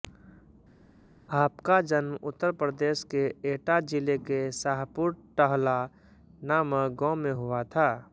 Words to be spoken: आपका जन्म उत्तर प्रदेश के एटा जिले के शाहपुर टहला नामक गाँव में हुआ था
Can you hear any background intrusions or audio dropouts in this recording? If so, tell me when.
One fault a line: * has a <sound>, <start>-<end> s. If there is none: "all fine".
all fine